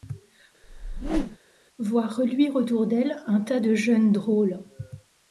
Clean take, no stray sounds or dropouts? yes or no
no